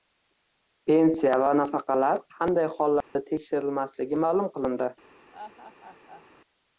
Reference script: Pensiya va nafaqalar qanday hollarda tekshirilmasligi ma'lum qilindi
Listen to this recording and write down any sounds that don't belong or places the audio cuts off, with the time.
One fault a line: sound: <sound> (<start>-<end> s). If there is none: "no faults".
sound: dropout (3.0-3.2 s)
sound: laugh (5.3-6.2 s)